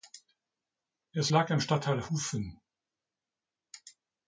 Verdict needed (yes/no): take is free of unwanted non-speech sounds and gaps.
yes